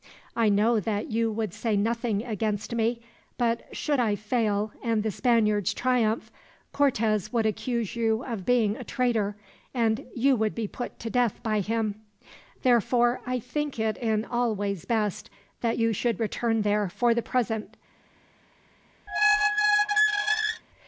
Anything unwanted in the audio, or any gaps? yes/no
yes